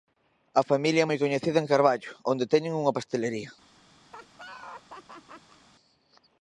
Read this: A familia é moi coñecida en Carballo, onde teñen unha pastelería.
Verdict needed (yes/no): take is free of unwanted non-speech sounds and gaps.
no